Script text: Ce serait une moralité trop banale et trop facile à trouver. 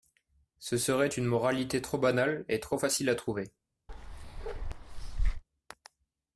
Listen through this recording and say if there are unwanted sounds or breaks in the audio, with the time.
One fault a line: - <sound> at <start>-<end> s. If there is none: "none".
- bark at 3.9-5.4 s